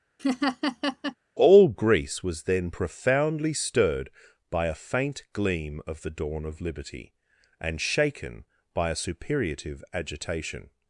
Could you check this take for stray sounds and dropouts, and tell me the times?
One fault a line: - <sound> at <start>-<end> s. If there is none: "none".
- laugh at 0.2-1.2 s